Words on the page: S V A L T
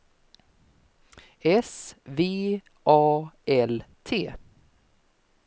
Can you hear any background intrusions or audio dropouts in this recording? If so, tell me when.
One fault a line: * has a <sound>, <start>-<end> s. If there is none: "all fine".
all fine